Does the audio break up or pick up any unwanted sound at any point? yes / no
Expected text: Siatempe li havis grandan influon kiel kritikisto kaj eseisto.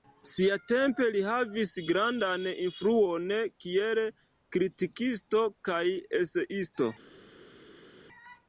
no